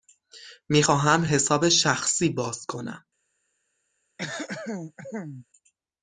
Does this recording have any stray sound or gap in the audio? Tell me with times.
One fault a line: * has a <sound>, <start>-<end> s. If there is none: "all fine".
* has a throat clearing, 4.2-5.5 s